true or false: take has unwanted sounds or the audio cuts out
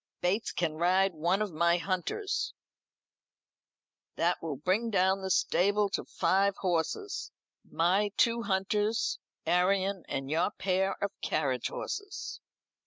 false